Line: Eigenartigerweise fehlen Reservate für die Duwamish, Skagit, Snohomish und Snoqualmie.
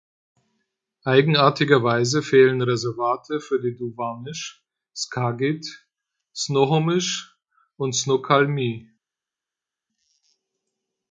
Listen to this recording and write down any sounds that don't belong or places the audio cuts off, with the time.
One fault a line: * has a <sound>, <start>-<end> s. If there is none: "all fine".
all fine